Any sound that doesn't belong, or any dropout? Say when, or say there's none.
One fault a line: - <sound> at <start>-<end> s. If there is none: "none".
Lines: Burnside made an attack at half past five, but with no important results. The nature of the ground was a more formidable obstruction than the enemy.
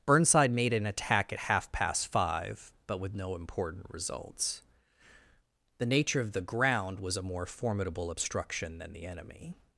none